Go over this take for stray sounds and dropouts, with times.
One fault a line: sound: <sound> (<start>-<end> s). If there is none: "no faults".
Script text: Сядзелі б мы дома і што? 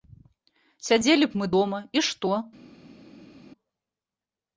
no faults